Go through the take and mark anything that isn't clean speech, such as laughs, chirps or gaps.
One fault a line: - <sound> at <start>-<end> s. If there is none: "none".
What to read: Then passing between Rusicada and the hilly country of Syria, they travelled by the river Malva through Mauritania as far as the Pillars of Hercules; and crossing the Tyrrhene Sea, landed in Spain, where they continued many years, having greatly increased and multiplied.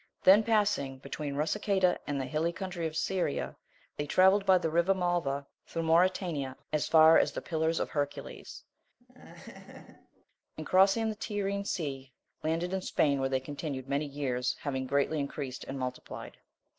- laugh at 9.0-10.2 s